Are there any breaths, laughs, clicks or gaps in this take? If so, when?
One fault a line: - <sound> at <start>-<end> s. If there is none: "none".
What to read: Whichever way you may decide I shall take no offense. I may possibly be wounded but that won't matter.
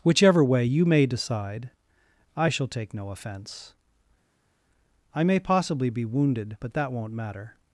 none